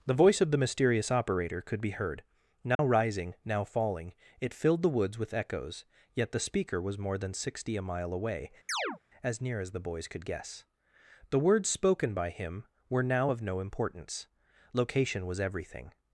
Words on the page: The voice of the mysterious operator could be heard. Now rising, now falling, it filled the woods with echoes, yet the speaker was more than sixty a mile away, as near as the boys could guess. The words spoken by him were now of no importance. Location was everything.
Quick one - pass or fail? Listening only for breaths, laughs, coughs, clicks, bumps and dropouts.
fail